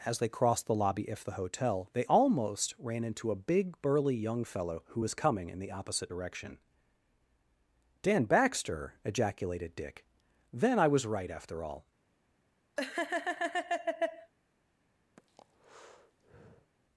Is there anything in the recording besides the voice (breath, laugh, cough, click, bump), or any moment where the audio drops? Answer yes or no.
yes